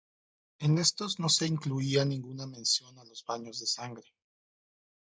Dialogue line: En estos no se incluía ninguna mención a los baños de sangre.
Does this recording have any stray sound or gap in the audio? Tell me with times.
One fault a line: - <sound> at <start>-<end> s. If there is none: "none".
none